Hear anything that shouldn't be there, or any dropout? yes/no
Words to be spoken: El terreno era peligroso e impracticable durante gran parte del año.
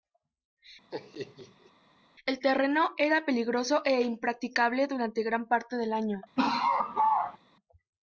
yes